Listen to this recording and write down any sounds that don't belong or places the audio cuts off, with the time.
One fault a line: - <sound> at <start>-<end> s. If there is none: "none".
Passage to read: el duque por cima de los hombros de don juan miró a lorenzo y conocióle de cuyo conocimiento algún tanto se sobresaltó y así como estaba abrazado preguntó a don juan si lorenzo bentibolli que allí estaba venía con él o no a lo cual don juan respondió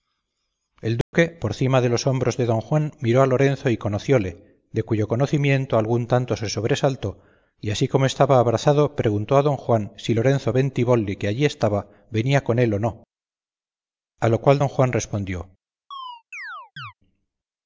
- dropout at 1.0-1.1 s
- chirp at 15.9-16.9 s